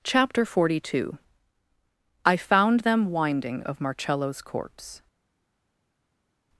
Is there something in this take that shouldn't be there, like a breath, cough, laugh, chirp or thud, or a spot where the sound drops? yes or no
no